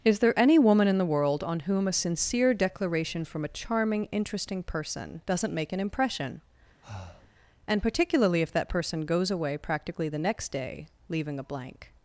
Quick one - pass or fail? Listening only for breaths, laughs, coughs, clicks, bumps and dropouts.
fail